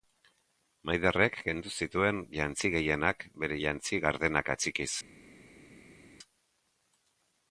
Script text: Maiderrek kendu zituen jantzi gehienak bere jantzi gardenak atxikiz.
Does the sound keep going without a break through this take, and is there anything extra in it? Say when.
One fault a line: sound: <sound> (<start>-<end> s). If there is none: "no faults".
no faults